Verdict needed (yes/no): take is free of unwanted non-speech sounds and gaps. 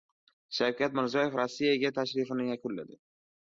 yes